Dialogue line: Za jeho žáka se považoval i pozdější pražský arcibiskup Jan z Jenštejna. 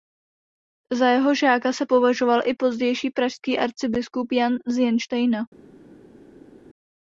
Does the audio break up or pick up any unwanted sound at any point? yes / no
no